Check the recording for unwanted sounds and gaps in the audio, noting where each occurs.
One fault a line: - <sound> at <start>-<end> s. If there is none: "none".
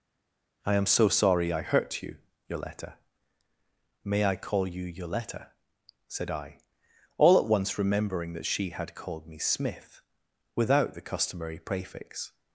none